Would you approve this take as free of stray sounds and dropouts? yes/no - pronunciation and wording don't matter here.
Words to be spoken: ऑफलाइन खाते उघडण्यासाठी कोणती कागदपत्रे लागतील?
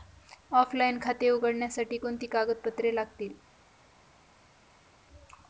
yes